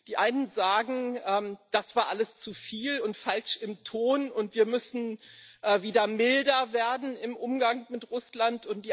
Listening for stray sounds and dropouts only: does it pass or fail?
pass